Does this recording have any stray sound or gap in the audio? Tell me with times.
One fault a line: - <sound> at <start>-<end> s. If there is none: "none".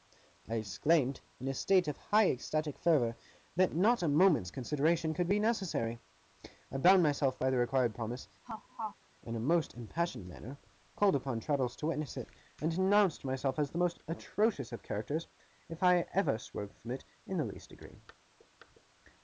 - laugh at 8.4-9.0 s